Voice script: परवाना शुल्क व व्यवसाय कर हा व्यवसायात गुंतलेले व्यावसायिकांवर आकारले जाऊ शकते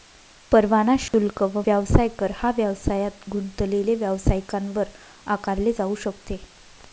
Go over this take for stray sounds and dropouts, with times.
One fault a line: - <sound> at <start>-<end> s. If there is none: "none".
- dropout at 1.1-1.1 s